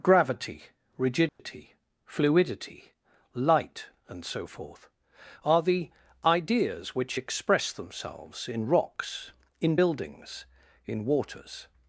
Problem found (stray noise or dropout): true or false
true